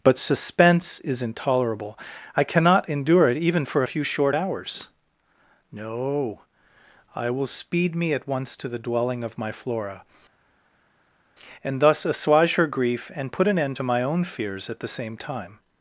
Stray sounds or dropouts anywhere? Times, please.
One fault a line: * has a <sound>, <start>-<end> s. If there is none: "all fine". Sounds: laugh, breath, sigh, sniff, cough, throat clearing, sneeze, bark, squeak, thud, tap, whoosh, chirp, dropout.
all fine